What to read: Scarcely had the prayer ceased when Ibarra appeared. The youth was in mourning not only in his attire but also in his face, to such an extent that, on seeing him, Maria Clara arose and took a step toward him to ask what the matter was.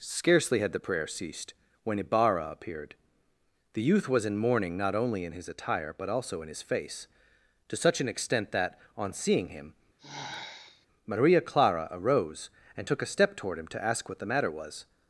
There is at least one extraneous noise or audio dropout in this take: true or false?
true